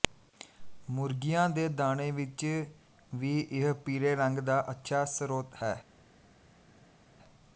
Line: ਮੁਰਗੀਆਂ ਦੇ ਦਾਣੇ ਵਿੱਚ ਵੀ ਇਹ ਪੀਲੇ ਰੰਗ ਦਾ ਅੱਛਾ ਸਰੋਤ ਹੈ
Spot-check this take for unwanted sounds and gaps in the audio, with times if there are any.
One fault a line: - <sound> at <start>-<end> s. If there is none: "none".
none